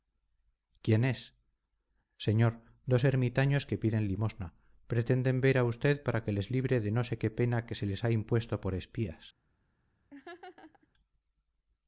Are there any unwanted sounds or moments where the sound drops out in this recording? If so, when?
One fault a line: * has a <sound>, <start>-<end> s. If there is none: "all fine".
* has a laugh, 10.1-10.9 s